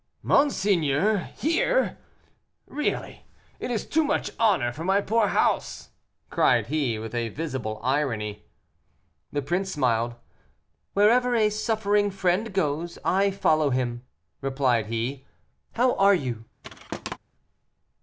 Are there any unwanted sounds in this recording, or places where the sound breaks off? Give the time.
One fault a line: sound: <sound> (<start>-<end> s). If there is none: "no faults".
sound: thud (16.6-17.2 s)